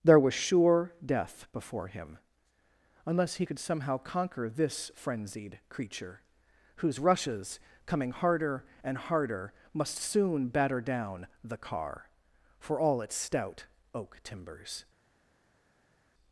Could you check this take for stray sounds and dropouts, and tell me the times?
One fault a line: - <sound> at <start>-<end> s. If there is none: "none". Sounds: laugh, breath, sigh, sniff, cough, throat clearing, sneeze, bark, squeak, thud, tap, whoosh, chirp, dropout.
none